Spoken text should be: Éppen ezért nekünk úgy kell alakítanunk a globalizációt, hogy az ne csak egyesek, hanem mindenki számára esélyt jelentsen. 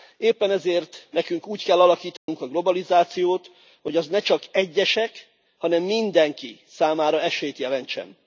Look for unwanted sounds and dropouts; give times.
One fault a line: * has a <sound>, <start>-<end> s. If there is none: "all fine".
* has a dropout, 2.2-2.3 s